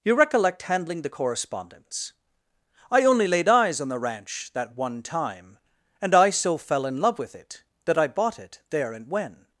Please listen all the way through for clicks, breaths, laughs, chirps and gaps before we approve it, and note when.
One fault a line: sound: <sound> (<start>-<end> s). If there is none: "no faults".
no faults